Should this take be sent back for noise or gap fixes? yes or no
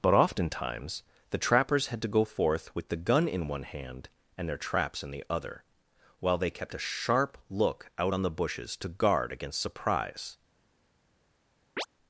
yes